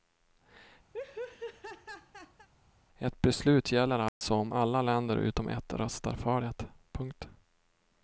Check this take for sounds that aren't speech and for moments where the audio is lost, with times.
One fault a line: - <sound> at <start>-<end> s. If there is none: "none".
- laugh at 0.9-2.5 s
- dropout at 4.1-4.2 s